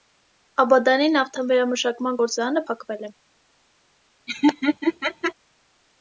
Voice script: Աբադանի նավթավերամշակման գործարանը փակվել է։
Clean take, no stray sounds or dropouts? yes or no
no